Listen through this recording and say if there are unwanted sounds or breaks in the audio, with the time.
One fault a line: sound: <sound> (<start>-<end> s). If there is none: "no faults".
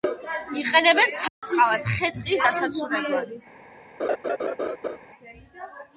sound: dropout (1.3-1.4 s)
sound: laugh (4.0-5.0 s)